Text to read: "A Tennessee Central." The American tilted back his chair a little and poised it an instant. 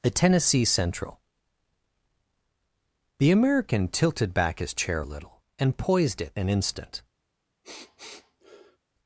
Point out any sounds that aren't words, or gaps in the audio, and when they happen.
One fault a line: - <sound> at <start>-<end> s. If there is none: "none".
- sniff at 7.6-8.8 s